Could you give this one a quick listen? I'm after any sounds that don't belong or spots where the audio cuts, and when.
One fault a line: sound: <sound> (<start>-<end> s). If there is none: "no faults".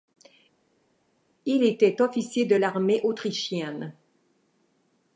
no faults